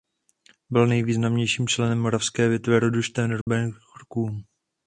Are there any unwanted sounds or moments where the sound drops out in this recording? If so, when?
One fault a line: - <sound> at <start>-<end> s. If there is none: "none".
- dropout at 3.4-3.5 s